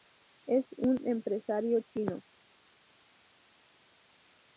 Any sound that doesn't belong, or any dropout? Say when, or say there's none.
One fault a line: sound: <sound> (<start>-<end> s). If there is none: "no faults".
no faults